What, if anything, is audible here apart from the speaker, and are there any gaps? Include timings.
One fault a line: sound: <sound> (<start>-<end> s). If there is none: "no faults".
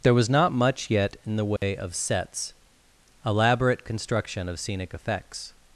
sound: dropout (1.6-1.6 s)